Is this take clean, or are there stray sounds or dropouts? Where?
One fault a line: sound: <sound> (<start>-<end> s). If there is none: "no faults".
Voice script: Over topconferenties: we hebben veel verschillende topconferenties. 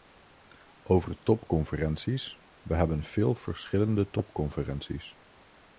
no faults